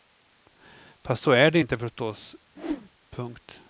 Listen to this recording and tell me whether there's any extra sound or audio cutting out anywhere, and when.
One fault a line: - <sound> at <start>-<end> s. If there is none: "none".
- whoosh at 2.6-2.9 s